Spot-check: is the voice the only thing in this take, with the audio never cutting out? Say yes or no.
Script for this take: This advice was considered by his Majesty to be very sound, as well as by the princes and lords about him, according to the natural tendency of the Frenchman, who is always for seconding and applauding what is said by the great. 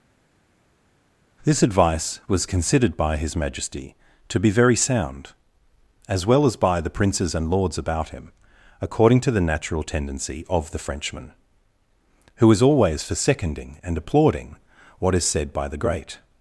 yes